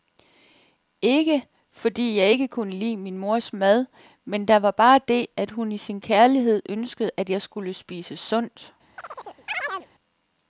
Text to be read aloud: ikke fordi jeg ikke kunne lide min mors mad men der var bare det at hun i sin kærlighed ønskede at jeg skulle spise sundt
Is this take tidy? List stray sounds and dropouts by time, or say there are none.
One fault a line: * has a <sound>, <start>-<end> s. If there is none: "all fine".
* has a chirp, 9.0-9.9 s